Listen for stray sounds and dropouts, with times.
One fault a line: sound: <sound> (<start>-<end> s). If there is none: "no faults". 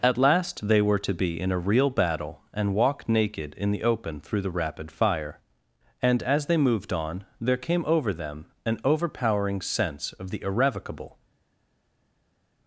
no faults